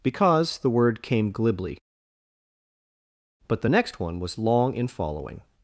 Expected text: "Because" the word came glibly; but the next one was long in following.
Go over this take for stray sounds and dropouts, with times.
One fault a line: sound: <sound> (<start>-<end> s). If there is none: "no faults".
no faults